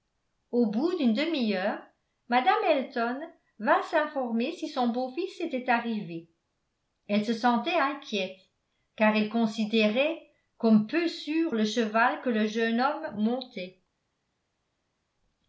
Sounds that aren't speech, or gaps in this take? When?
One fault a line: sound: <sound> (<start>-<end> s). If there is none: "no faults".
no faults